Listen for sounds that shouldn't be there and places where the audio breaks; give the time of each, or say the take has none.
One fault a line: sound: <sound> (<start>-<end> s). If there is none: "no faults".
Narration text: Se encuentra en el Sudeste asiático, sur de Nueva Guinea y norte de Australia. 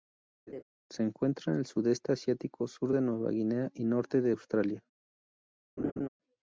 sound: laugh (0.5-0.6 s)
sound: laugh (5.8-6.1 s)